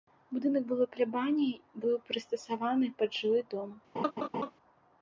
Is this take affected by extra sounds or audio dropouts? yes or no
yes